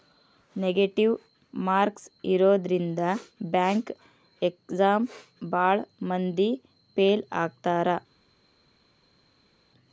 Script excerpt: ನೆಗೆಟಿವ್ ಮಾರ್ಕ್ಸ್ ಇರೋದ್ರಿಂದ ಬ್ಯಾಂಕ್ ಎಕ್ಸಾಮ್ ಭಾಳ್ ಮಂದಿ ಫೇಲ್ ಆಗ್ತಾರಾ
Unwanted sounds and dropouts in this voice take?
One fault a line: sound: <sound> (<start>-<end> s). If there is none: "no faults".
no faults